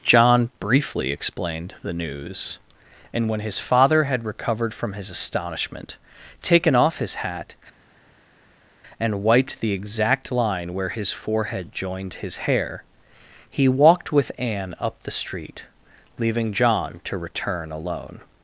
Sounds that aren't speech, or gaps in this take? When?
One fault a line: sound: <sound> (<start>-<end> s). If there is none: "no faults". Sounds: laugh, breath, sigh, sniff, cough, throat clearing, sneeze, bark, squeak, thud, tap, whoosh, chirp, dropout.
no faults